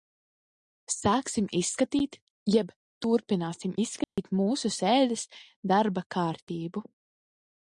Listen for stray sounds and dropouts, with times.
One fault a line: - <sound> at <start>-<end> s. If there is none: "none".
- dropout at 4.0-4.2 s